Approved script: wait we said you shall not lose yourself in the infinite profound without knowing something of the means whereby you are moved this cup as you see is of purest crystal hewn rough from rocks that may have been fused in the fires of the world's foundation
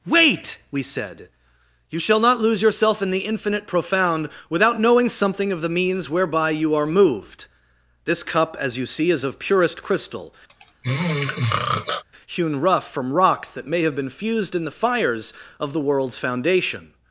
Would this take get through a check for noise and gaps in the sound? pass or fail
fail